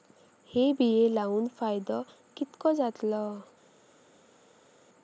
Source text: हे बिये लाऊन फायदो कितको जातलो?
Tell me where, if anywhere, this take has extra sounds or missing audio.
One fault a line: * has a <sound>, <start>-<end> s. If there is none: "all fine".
all fine